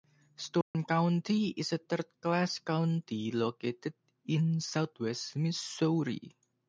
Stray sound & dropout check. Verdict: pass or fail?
fail